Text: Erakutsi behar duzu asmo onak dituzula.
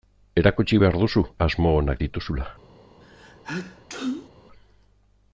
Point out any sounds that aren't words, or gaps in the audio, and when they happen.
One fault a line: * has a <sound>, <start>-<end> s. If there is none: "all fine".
* has a sneeze, 3.0-4.3 s